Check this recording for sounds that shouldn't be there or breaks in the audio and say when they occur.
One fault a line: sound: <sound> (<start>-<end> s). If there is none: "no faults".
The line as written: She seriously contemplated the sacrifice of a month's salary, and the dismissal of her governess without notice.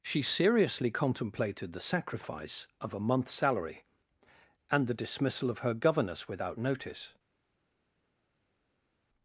no faults